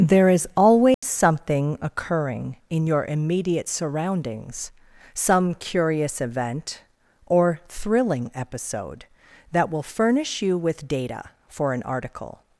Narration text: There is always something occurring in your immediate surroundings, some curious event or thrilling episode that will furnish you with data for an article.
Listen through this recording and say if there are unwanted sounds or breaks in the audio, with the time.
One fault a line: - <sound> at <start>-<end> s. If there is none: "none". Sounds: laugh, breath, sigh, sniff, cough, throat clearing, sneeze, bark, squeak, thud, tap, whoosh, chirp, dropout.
- dropout at 0.9-1.0 s